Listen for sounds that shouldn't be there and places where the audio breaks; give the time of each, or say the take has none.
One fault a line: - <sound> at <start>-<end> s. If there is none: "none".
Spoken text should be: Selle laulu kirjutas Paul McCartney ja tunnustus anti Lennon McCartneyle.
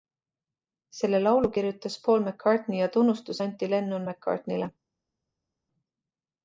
none